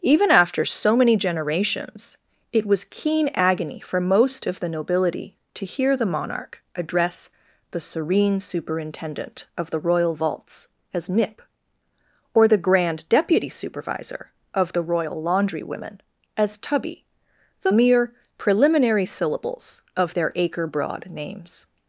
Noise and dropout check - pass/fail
pass